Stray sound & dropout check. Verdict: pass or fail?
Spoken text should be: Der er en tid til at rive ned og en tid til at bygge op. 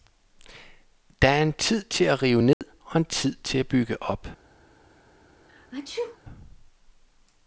fail